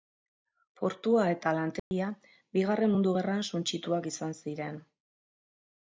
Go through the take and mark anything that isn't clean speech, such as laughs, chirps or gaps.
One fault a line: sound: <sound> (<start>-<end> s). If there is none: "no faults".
sound: dropout (1.8-1.9 s)